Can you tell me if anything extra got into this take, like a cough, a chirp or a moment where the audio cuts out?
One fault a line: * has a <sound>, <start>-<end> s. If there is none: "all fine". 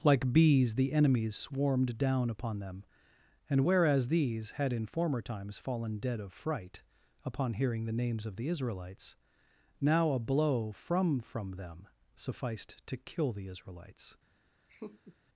* has a laugh, 14.7-15.2 s